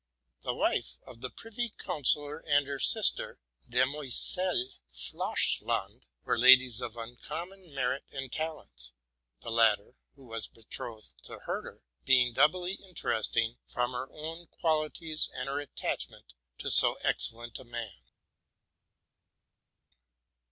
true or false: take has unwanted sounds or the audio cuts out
false